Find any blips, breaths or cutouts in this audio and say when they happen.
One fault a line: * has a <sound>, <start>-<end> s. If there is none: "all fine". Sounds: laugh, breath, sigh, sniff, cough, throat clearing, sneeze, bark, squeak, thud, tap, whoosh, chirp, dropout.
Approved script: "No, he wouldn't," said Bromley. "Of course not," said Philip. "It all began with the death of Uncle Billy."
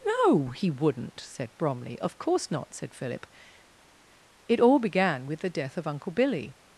all fine